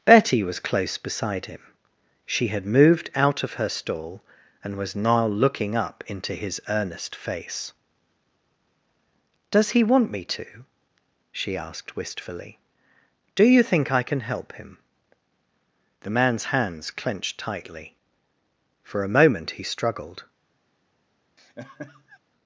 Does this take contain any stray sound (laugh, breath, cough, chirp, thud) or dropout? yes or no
yes